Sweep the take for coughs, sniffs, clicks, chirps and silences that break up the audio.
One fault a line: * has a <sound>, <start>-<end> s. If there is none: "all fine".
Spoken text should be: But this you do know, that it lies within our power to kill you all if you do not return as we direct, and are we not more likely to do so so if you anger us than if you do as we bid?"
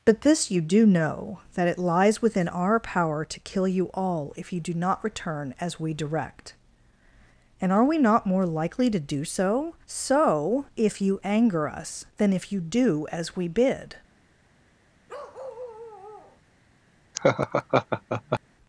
* has a bark, 15.1-16.4 s
* has a laugh, 17.1-18.4 s